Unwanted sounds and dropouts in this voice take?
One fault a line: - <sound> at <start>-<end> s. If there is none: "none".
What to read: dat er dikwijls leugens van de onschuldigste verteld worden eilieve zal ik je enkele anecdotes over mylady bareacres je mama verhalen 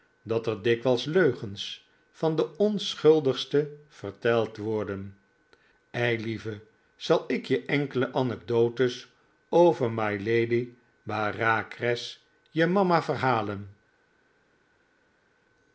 none